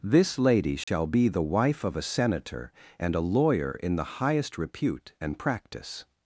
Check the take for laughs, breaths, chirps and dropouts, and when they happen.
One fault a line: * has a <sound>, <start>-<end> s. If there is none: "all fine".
* has a dropout, 0.8-0.9 s